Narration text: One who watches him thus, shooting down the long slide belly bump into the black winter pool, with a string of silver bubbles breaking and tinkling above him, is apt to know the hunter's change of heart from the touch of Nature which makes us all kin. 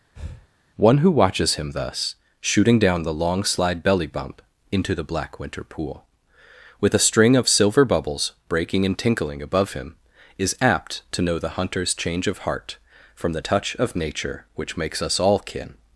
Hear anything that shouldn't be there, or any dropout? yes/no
yes